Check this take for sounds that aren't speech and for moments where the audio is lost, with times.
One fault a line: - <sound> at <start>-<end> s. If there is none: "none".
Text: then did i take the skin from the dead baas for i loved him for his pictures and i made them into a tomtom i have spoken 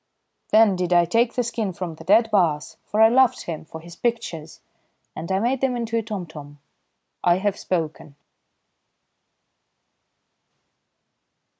none